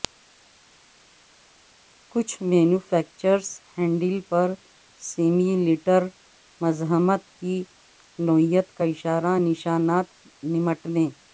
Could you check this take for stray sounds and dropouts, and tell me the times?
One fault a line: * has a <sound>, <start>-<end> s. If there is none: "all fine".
all fine